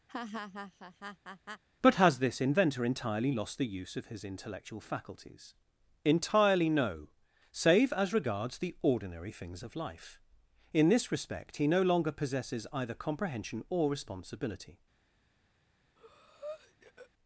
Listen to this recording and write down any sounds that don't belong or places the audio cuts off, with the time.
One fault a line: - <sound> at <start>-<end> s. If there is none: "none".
- laugh at 0.1-1.6 s
- breath at 16.0-17.1 s